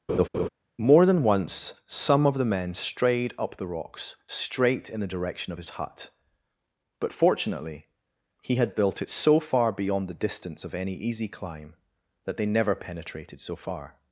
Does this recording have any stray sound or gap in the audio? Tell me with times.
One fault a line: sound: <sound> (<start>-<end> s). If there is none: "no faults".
sound: laugh (0.1-0.5 s)